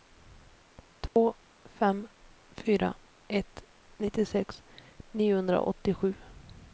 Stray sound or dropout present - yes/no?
yes